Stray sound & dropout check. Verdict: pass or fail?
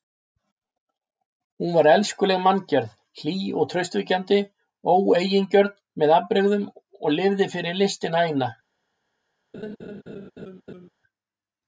fail